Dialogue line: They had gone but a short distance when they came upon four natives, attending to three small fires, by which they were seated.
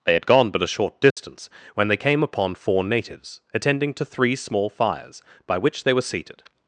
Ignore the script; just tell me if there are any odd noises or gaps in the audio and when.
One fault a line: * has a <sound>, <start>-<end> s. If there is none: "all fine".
* has a dropout, 1.1-1.2 s